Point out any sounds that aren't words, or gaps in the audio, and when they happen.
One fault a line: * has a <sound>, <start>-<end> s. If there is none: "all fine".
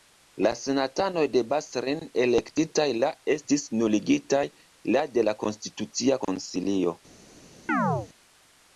* has a chirp, 7.7-8.1 s